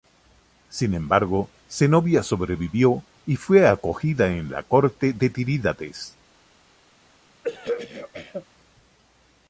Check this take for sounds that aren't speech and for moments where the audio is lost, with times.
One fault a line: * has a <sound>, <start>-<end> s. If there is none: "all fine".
* has a throat clearing, 7.4-8.5 s